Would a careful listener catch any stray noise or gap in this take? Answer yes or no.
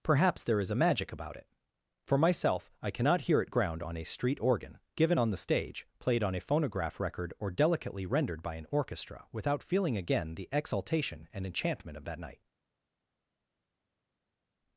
no